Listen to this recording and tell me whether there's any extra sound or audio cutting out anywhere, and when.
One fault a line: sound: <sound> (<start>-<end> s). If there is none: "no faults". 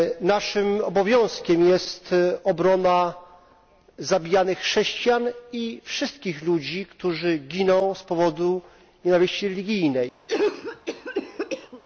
sound: cough (10.3-11.8 s)